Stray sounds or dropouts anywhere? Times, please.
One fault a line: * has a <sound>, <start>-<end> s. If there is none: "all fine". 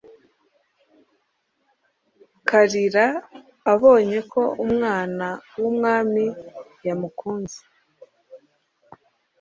all fine